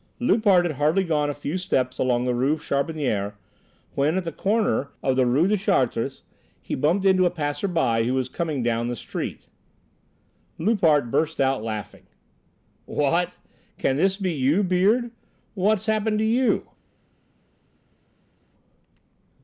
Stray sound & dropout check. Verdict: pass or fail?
pass